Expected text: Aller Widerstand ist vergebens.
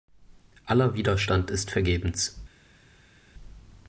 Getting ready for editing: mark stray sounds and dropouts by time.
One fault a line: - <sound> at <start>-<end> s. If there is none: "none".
none